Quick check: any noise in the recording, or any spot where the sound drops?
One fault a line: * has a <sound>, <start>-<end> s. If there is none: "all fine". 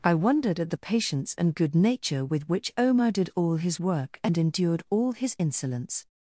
all fine